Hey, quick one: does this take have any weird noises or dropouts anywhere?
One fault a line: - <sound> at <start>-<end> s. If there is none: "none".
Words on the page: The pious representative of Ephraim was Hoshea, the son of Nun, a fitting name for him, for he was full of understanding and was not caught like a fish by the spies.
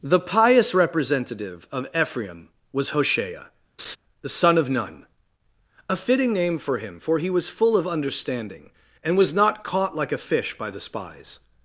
- laugh at 3.8-4.0 s